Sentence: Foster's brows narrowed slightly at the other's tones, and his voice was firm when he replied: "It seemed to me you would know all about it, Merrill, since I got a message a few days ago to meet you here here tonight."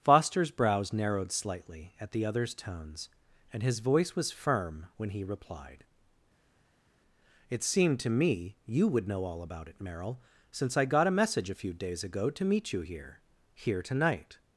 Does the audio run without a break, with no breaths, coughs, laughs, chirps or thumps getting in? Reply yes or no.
yes